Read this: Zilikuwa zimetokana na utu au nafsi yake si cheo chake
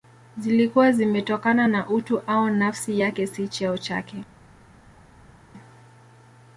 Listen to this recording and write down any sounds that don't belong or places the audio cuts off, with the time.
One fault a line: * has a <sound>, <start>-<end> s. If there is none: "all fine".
all fine